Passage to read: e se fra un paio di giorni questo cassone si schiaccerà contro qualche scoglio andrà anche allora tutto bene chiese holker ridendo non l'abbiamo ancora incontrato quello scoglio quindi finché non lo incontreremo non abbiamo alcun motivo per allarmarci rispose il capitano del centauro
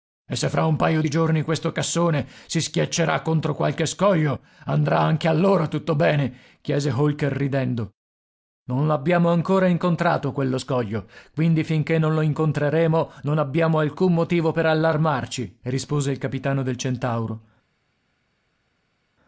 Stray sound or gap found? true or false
false